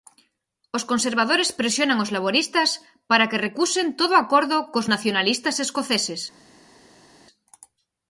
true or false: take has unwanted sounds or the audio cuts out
false